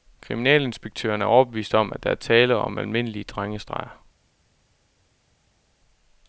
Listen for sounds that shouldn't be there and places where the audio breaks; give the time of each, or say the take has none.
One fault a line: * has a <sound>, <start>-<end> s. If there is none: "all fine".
all fine